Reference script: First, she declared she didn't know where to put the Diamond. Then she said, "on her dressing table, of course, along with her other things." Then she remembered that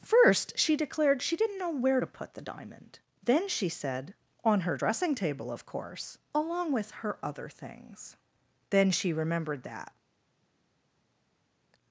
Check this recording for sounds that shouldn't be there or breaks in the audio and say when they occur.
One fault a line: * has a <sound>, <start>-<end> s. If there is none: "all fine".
all fine